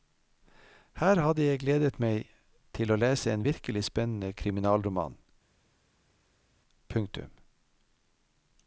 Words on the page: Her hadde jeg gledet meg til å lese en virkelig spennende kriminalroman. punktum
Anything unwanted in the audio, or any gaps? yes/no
no